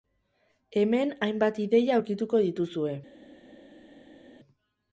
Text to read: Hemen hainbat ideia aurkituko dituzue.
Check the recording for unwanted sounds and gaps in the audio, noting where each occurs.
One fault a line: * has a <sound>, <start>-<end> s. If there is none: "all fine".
all fine